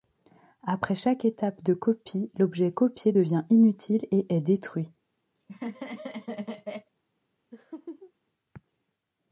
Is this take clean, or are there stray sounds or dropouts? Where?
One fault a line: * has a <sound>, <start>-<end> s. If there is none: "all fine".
* has a laugh, 5.3-6.9 s
* has a laugh, 7.5-8.1 s